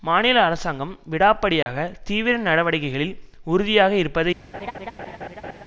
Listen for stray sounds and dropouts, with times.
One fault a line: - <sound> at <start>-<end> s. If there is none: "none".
- dropout at 1.6-1.7 s
- laugh at 4.5-5.6 s